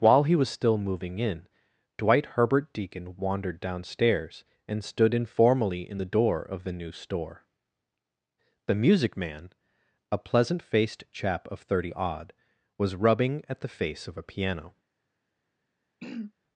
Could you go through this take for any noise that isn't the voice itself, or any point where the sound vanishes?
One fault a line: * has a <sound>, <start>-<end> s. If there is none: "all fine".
* has a throat clearing, 16.0-16.3 s